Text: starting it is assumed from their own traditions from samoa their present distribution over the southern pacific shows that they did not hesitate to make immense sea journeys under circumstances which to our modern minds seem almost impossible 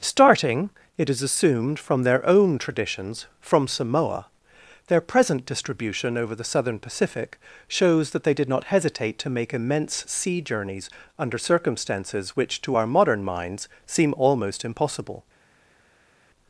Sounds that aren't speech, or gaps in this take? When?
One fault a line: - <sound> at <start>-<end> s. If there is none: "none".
none